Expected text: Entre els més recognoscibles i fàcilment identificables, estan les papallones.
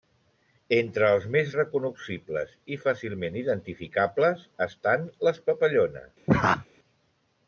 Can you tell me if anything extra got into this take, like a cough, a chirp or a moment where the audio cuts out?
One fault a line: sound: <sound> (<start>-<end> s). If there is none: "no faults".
sound: laugh (6.3-6.7 s)